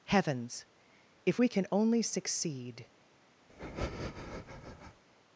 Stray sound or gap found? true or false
true